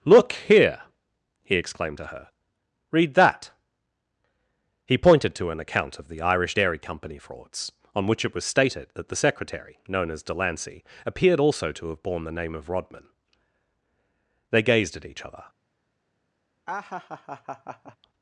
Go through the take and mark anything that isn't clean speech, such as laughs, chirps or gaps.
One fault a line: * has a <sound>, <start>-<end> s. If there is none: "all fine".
* has a laugh, 16.7-18.0 s